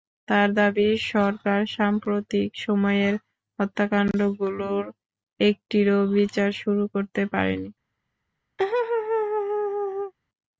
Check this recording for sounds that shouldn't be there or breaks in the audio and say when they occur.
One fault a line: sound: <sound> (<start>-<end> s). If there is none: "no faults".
sound: laugh (8.6-10.1 s)